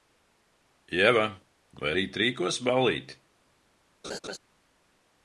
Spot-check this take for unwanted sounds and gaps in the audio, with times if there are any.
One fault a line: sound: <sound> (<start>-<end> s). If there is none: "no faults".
sound: laugh (4.0-4.4 s)